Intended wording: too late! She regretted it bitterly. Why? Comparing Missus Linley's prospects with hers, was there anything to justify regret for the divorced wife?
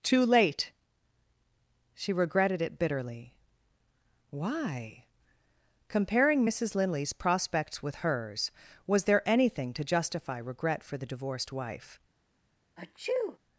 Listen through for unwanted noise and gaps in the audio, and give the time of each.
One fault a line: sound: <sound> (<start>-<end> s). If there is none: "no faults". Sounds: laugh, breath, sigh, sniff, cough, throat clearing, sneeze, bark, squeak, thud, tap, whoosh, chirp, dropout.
sound: sneeze (12.8-13.4 s)